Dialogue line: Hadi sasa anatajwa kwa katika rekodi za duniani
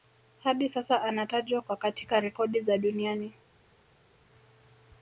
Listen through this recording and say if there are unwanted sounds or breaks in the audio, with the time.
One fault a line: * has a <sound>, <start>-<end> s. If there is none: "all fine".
all fine